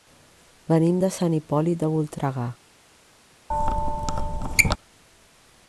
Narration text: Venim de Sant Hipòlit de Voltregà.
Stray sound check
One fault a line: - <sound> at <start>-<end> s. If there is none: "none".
- squeak at 3.5-4.8 s